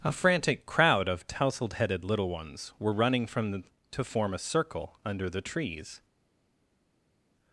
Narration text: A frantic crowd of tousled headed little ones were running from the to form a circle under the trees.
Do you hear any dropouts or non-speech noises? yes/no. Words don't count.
no